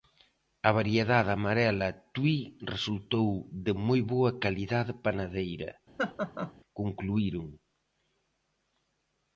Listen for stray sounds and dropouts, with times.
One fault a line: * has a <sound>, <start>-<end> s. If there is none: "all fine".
* has a laugh, 6.0-6.5 s